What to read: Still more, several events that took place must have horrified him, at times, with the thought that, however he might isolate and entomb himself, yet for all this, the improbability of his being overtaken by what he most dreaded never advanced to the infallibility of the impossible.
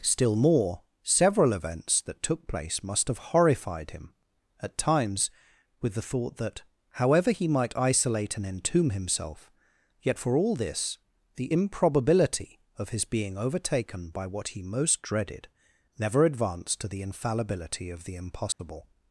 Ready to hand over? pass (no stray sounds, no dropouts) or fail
fail